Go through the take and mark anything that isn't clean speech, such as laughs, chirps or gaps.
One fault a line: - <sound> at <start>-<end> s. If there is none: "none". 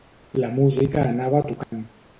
- dropout at 1.6-1.7 s